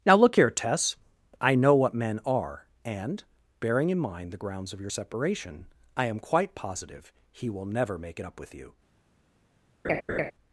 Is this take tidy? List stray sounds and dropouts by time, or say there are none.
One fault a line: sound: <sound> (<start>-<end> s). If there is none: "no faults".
sound: laugh (9.8-10.3 s)